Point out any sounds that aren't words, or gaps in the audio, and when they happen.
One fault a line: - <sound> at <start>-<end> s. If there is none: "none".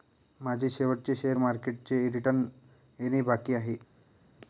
none